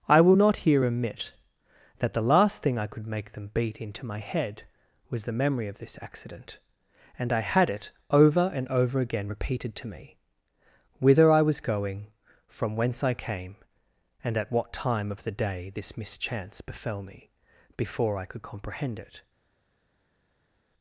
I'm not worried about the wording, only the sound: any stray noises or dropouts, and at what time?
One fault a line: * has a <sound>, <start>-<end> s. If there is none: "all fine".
all fine